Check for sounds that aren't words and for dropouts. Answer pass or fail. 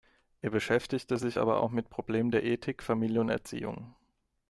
pass